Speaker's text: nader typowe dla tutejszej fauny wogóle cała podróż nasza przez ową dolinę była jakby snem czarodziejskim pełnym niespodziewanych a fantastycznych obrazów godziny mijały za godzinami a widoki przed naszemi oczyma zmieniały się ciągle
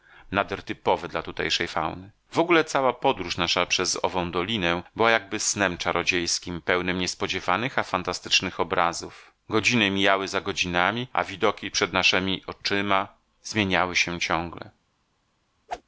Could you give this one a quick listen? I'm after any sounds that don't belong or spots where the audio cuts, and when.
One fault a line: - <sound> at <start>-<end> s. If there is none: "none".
- whoosh at 15.7-15.8 s